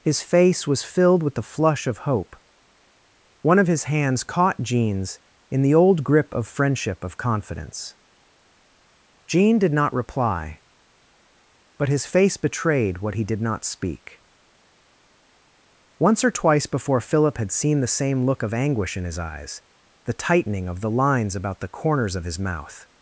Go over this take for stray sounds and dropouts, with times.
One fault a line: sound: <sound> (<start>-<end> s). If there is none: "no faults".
no faults